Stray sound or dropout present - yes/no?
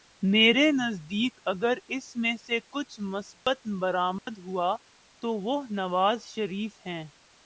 yes